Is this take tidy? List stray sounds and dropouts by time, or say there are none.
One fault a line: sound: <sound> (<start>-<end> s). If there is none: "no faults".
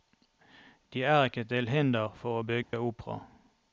sound: dropout (2.6-2.7 s)